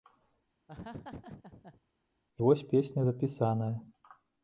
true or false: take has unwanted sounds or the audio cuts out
true